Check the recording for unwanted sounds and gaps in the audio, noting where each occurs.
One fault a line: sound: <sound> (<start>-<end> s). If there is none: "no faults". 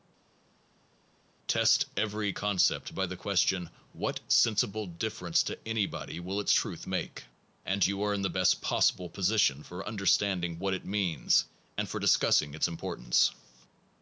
no faults